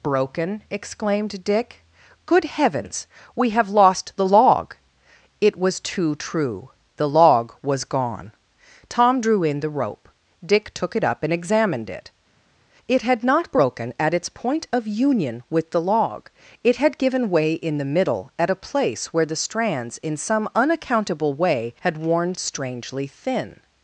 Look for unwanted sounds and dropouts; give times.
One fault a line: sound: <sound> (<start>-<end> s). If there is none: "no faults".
no faults